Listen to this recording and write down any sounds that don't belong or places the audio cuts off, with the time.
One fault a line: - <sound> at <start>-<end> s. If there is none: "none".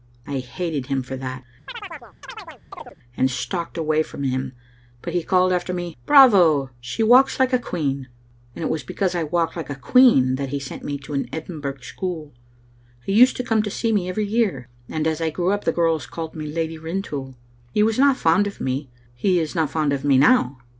- chirp at 1.7-3.0 s